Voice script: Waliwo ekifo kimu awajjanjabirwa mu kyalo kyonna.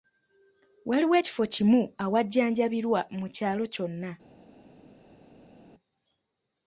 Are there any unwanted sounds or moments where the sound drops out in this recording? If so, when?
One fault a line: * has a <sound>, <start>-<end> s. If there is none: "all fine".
all fine